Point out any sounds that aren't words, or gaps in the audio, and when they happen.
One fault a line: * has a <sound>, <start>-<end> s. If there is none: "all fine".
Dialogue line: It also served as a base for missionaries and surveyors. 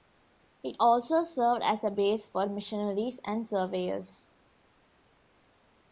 all fine